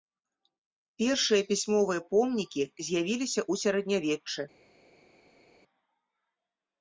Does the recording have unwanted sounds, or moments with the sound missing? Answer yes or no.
no